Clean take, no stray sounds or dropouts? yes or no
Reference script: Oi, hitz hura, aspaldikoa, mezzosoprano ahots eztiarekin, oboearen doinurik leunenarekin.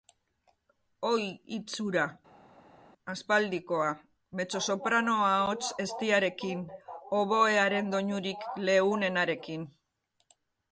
yes